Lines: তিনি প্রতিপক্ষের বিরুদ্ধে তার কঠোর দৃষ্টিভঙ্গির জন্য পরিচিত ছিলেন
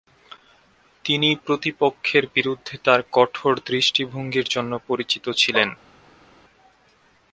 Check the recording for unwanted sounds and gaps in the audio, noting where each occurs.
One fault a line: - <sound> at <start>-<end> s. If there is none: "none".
none